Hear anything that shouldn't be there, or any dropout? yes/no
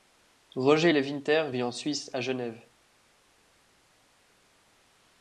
no